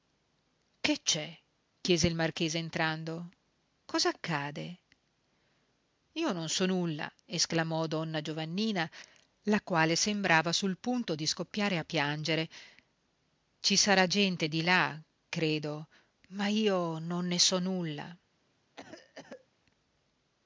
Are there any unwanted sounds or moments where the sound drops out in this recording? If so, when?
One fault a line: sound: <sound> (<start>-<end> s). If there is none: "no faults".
sound: cough (18.8-19.5 s)